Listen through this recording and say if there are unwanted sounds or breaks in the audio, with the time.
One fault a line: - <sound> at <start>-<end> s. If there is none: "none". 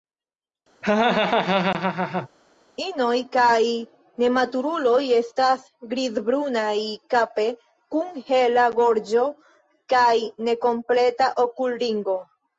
- laugh at 0.8-2.3 s